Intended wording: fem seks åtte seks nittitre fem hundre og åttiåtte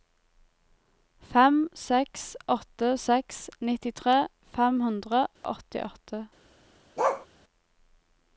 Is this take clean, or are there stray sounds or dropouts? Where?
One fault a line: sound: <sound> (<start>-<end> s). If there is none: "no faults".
sound: dropout (5.4-5.4 s)
sound: bark (7.0-7.3 s)